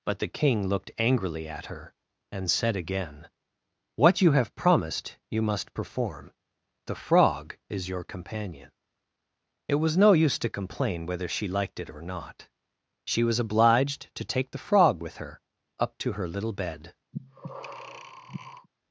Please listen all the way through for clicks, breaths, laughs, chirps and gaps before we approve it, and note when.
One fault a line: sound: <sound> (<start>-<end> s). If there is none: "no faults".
sound: breath (17.1-18.7 s)